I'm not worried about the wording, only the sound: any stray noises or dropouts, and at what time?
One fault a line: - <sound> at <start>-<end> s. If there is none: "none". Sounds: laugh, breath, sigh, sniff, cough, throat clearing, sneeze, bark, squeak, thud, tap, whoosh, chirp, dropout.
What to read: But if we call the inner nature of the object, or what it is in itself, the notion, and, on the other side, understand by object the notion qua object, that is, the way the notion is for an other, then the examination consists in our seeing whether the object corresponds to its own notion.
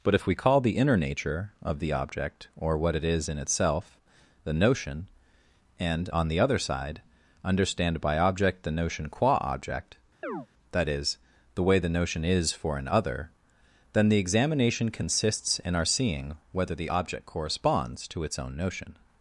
- chirp at 10.2-10.5 s